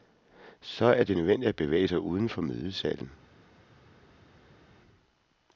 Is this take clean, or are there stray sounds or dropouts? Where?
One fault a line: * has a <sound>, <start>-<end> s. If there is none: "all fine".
all fine